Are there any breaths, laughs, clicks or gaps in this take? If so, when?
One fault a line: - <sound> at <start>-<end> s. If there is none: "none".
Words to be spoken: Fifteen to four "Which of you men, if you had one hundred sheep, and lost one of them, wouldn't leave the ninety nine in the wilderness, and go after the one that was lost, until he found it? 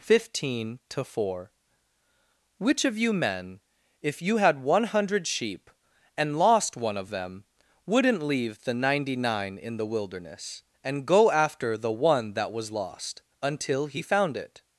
none